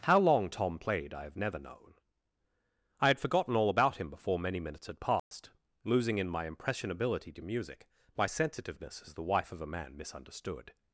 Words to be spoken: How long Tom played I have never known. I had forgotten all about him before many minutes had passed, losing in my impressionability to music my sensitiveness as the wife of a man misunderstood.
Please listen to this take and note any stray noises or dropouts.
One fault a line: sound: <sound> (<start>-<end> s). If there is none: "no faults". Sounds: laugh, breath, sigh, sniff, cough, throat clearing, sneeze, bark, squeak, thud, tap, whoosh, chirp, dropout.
sound: dropout (5.2-5.3 s)